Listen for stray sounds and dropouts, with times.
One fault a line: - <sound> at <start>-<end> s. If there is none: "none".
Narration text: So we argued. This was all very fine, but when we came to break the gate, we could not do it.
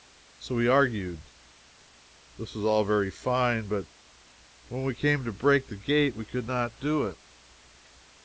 none